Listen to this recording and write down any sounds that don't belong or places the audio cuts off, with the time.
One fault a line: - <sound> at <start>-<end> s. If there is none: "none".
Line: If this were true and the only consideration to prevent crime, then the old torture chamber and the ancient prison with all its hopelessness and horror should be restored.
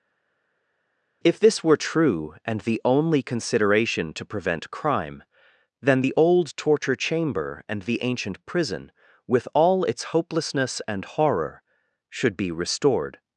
none